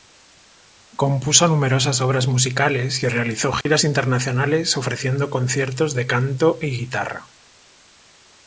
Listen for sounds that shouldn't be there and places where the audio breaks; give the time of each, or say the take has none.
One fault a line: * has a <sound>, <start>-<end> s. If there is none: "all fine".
* has a dropout, 3.6-3.7 s